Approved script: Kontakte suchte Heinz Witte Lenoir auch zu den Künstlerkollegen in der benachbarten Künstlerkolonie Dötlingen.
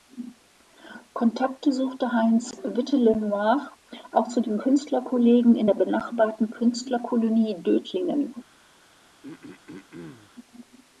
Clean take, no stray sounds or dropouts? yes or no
no